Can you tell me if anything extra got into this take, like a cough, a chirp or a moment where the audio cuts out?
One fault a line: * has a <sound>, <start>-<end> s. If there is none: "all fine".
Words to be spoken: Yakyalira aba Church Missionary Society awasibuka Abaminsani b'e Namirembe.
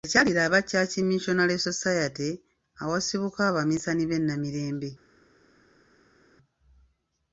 all fine